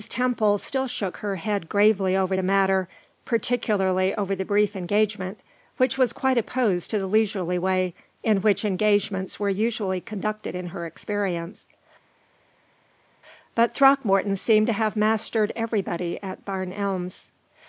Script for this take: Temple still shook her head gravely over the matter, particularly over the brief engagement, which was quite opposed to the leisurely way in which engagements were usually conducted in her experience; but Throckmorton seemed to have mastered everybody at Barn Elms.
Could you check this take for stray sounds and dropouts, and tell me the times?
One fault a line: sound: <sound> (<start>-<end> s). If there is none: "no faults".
no faults